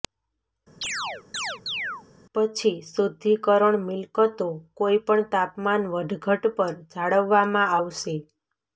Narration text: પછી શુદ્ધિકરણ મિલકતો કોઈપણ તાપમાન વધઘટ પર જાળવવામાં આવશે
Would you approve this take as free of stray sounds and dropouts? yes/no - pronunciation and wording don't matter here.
no